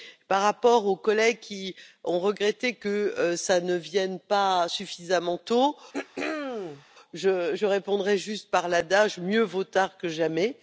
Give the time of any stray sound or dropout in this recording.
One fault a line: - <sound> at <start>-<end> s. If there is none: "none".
- throat clearing at 5.9-6.8 s